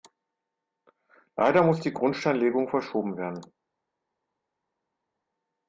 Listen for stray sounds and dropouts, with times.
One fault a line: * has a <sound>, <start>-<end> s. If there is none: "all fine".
all fine